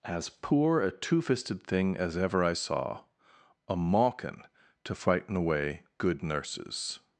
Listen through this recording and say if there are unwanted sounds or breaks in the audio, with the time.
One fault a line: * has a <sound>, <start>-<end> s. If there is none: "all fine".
all fine